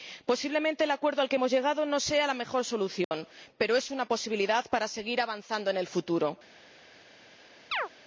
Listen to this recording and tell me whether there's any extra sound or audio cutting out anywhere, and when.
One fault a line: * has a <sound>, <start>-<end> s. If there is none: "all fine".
* has a dropout, 3.0-3.1 s
* has a chirp, 7.7-7.9 s